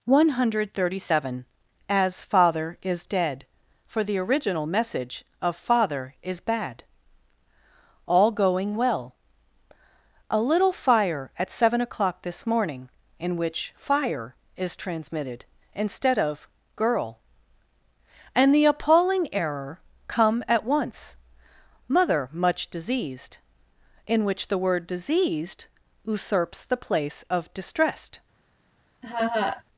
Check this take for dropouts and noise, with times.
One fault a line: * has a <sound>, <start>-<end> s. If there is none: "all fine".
* has a laugh, 29.0-29.6 s